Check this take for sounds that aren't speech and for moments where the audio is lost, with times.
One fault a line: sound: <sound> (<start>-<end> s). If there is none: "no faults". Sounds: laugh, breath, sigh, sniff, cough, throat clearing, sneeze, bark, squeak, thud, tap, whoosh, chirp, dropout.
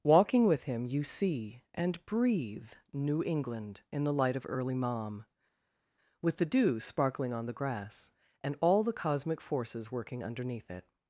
no faults